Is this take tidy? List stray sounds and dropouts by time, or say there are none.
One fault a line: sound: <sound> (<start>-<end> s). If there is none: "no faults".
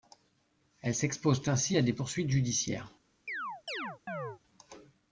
sound: chirp (3.3-4.4 s)